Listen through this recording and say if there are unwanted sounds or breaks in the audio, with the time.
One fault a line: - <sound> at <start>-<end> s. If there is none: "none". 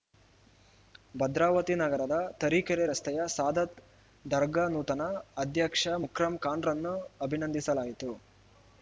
none